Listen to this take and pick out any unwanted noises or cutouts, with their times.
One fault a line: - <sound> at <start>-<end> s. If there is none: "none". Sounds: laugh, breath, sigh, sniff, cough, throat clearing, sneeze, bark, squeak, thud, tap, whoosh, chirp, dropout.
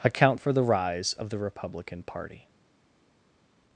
none